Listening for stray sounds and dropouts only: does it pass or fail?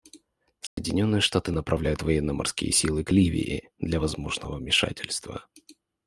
fail